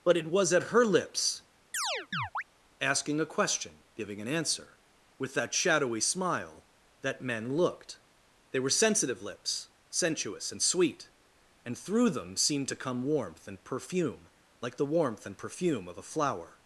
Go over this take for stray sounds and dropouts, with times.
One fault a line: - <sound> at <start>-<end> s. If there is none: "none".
- chirp at 1.7-2.4 s